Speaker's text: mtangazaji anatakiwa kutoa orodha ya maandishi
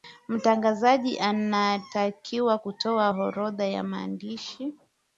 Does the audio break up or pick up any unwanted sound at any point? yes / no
no